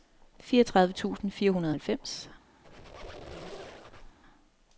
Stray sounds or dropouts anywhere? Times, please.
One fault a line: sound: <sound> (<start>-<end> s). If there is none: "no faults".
sound: squeak (2.6-4.2 s)